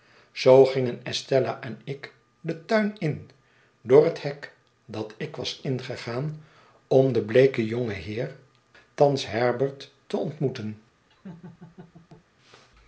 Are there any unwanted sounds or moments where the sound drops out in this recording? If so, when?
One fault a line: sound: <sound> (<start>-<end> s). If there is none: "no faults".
sound: laugh (11.1-12.3 s)